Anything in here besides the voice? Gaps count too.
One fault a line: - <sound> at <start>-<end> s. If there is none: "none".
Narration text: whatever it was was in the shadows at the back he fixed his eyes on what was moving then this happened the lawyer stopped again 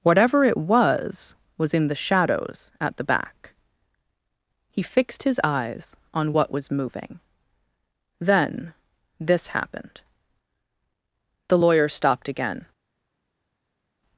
none